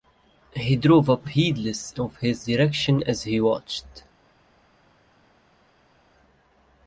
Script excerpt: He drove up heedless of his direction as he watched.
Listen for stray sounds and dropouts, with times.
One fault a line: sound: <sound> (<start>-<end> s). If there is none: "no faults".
no faults